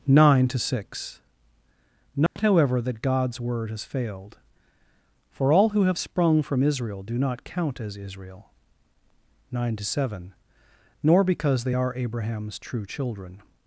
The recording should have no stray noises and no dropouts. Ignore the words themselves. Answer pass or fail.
fail